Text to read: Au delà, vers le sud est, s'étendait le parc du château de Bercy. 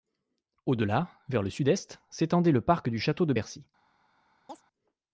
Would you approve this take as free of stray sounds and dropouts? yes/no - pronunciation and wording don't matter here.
no